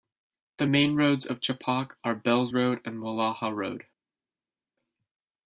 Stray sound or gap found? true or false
false